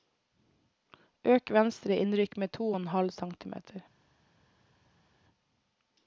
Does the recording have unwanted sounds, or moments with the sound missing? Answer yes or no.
no